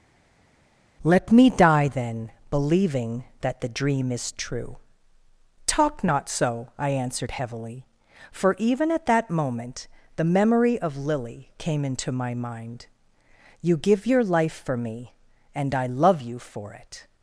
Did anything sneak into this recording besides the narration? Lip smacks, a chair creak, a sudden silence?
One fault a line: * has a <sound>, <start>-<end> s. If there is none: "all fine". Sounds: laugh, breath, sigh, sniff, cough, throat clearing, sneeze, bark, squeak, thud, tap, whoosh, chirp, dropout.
all fine